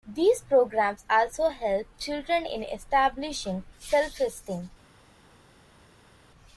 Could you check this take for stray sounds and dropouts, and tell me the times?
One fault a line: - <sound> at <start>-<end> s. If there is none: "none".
none